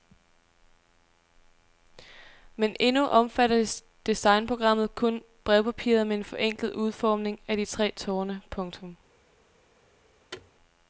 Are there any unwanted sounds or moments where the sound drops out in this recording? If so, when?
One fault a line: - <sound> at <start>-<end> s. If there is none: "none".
- thud at 10.3-10.5 s